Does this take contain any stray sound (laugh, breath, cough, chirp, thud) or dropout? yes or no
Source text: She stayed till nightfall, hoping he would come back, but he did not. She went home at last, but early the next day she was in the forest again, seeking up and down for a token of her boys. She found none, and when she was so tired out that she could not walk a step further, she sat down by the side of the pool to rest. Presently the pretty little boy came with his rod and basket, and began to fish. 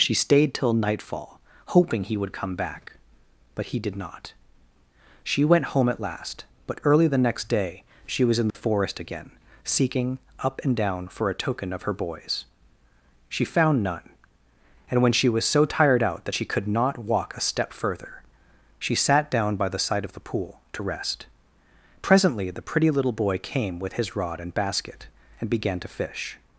yes